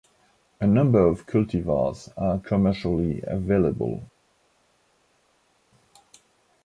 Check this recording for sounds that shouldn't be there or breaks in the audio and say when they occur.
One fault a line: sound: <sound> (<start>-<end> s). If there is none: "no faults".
no faults